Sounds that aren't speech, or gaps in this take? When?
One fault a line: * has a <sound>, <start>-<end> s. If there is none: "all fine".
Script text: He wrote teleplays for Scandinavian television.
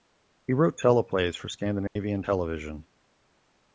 * has a dropout, 1.9-2.0 s